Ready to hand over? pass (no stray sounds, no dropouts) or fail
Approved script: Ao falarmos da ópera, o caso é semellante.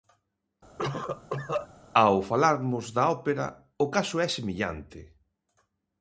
fail